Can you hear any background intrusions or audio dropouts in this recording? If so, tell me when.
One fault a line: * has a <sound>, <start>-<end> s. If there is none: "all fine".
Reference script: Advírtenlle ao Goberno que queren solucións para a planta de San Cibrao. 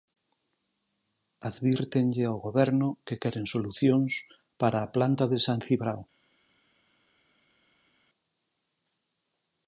all fine